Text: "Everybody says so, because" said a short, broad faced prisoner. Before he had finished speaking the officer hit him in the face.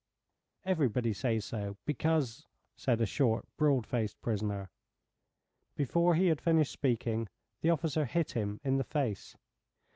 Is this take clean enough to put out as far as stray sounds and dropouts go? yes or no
yes